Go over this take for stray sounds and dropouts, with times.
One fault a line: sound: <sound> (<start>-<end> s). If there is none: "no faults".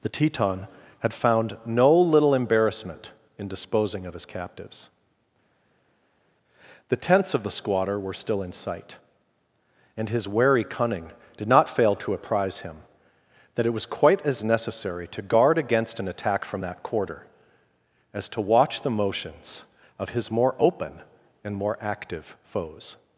no faults